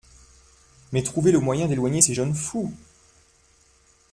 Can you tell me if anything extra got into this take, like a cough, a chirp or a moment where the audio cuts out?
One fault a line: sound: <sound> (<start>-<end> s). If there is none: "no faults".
no faults